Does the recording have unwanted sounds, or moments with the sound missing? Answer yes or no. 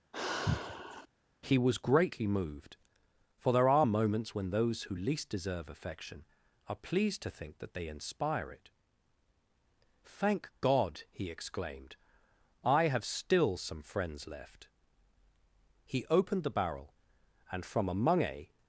yes